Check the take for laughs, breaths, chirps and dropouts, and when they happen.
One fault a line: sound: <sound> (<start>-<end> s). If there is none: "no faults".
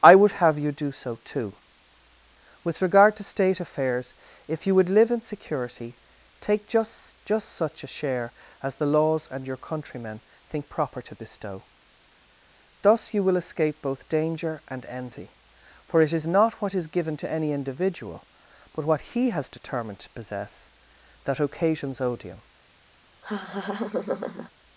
sound: laugh (23.2-24.5 s)